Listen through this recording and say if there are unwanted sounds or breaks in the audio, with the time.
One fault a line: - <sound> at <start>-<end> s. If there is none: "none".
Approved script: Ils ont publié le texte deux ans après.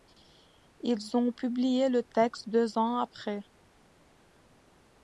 none